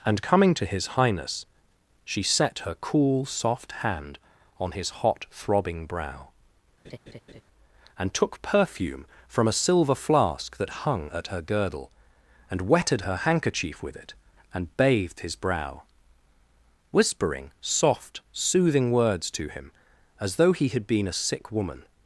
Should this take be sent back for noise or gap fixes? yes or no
yes